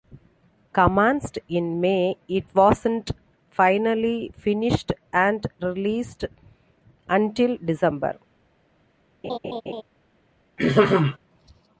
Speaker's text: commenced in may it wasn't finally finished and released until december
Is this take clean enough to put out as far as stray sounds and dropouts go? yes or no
no